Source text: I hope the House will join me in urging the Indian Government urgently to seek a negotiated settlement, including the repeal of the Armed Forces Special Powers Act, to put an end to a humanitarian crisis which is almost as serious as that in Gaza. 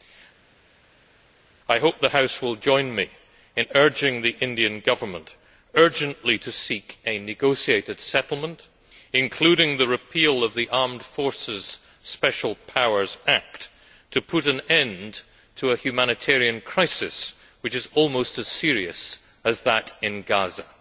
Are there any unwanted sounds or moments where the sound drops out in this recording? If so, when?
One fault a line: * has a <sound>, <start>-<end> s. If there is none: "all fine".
all fine